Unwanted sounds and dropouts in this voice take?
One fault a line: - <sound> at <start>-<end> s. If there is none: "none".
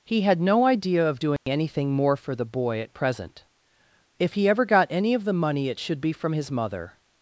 - dropout at 1.4-1.5 s